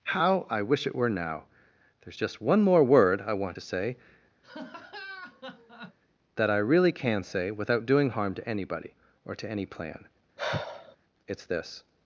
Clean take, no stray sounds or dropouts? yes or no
no